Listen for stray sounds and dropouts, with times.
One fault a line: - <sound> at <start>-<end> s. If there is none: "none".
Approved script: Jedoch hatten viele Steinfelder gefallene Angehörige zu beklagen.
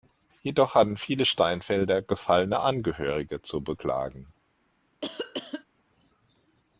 - cough at 5.0-5.6 s